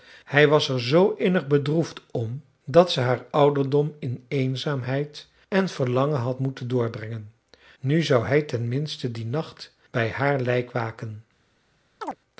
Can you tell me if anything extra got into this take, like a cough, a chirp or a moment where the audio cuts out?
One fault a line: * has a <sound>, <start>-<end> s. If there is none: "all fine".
* has a chirp, 12.0-12.2 s